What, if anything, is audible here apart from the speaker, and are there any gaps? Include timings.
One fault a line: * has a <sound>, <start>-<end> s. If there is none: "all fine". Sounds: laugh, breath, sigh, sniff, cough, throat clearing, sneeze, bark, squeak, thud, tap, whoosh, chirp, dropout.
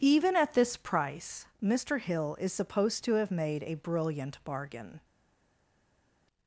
all fine